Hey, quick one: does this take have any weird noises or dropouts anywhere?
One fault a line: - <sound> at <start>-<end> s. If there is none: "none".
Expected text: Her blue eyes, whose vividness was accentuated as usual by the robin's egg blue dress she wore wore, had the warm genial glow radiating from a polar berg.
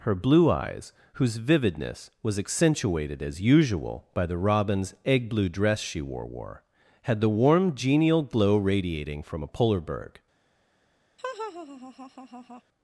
- laugh at 11.2-12.6 s